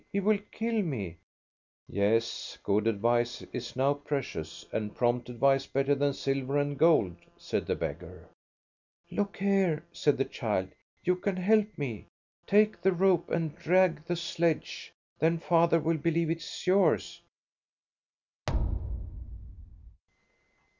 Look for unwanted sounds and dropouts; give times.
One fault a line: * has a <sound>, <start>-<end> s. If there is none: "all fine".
* has a thud, 18.5-20.0 s